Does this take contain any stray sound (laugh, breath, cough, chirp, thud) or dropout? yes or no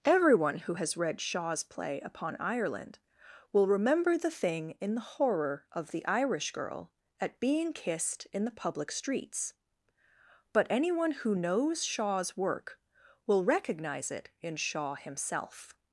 no